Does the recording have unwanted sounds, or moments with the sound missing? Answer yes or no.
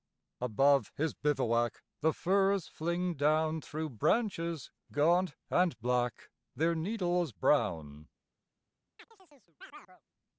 yes